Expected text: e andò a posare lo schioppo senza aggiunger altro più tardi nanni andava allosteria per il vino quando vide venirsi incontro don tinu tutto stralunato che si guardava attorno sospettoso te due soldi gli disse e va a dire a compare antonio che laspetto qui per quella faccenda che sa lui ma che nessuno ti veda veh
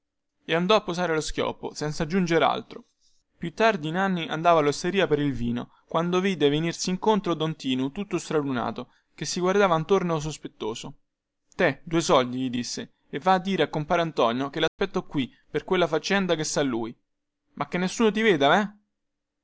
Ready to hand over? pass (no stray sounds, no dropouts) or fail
fail